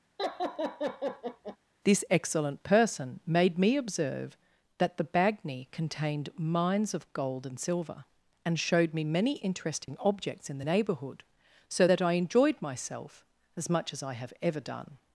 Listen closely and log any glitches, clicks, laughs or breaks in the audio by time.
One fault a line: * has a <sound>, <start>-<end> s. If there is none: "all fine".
* has a laugh, 0.2-1.6 s
* has a dropout, 9.9-9.9 s